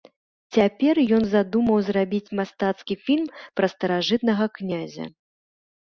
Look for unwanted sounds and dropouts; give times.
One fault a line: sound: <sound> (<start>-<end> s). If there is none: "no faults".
no faults